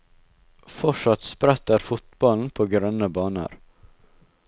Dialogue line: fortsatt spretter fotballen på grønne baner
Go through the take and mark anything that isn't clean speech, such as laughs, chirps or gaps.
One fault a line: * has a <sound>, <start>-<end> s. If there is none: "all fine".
all fine